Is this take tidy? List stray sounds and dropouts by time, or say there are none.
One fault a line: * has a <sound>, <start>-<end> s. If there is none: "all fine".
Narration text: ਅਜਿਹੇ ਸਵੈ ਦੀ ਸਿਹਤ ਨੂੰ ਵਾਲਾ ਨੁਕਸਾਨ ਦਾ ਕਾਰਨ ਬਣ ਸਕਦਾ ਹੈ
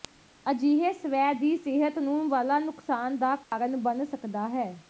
* has a dropout, 3.4-3.5 s